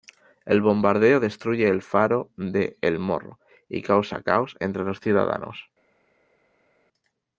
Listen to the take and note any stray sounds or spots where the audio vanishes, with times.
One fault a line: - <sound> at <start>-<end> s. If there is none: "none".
none